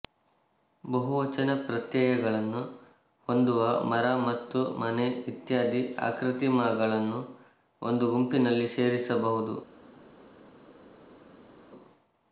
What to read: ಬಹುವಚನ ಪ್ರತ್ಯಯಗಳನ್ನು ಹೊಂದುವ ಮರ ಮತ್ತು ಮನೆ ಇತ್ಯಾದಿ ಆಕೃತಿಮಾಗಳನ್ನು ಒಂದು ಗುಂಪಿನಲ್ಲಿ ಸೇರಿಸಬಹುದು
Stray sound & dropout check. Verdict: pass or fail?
pass